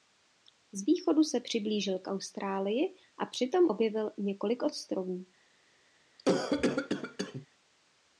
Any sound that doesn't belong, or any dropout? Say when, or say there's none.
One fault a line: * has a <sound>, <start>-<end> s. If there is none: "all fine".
* has a cough, 6.2-7.5 s